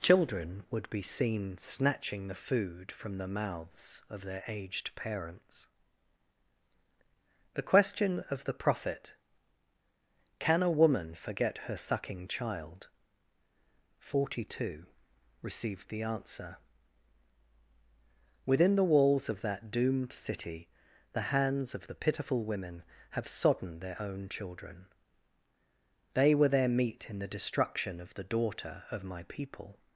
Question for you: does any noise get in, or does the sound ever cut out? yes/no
no